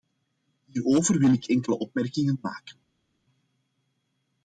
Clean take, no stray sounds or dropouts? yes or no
yes